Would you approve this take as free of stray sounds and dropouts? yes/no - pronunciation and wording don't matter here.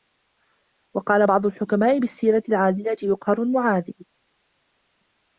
yes